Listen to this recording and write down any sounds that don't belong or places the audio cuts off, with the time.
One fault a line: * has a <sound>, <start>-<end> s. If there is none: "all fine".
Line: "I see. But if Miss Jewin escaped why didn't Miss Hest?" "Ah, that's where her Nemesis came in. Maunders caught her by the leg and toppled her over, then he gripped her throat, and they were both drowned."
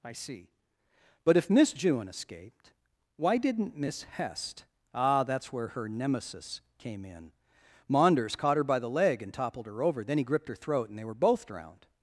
all fine